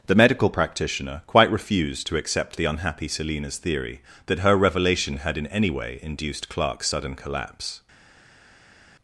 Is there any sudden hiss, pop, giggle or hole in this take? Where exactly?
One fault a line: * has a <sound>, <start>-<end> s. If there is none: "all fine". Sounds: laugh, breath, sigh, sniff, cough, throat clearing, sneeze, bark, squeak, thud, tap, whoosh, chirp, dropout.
all fine